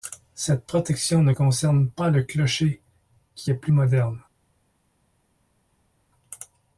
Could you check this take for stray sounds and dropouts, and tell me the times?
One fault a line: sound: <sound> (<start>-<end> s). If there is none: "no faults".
no faults